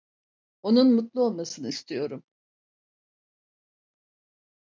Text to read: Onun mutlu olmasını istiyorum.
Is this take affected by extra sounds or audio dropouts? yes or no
no